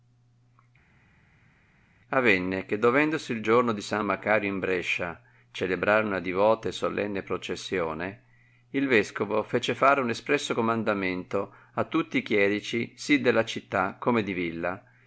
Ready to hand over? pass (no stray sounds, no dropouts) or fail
pass